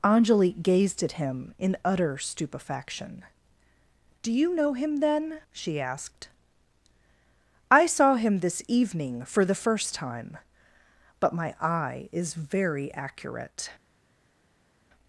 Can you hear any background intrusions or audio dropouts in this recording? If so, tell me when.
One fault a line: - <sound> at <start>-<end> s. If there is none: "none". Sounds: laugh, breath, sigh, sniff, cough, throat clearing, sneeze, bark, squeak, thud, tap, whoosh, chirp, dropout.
none